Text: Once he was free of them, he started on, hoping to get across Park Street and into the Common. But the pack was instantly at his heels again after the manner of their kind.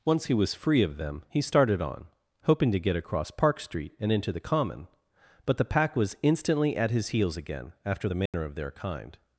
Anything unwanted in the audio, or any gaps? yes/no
yes